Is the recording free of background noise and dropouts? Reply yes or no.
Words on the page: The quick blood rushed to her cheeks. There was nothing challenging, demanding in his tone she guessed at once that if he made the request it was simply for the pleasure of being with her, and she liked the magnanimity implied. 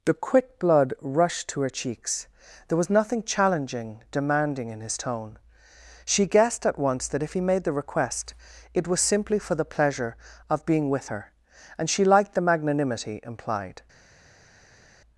yes